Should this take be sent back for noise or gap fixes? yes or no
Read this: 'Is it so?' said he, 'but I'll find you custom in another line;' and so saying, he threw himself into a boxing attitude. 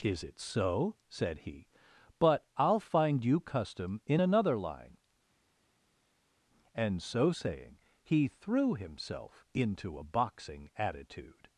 no